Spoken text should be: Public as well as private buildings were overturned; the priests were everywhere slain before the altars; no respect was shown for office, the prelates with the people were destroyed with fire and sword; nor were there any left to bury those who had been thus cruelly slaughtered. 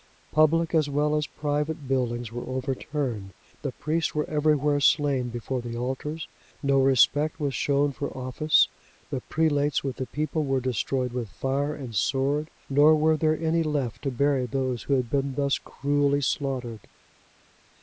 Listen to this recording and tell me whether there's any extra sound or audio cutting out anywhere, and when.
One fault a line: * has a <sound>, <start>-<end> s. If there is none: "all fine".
all fine